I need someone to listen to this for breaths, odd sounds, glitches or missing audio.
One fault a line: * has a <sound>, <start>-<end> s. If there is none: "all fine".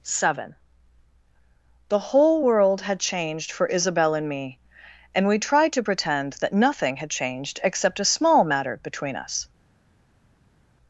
all fine